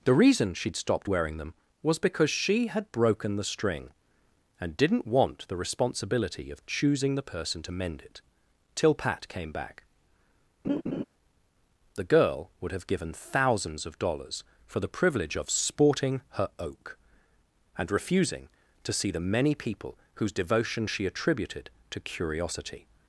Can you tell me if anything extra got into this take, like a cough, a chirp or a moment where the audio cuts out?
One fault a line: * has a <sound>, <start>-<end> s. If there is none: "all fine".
* has a laugh, 10.6-11.0 s